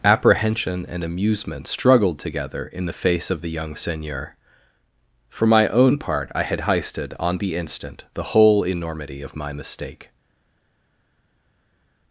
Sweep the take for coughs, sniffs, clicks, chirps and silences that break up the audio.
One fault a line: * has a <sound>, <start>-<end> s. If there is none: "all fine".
all fine